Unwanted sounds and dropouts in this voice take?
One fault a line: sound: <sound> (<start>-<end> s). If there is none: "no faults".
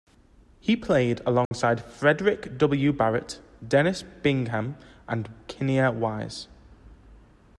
sound: dropout (1.5-1.5 s)